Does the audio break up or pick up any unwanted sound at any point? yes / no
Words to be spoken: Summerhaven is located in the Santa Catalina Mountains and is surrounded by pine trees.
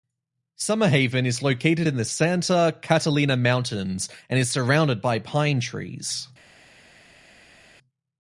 no